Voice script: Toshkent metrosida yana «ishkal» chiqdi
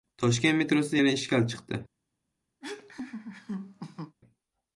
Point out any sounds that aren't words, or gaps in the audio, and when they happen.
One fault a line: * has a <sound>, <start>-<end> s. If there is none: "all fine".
* has a laugh, 2.6-4.2 s